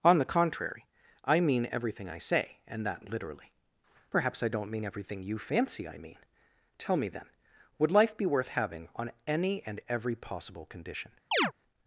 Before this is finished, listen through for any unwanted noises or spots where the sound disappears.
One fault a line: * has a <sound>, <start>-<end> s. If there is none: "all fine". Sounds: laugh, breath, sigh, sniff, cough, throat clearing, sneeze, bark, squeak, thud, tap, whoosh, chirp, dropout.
* has a chirp, 11.3-11.5 s